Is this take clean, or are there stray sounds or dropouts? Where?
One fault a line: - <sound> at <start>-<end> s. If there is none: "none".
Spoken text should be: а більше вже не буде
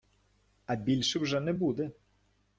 none